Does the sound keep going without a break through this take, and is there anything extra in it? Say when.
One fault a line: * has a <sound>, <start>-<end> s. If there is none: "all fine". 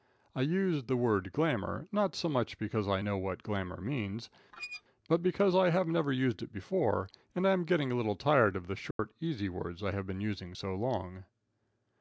* has a squeak, 4.5-4.8 s
* has a dropout, 8.9-9.0 s